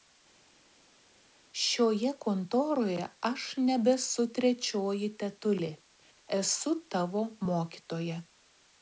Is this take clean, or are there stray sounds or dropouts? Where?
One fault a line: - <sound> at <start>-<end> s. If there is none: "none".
none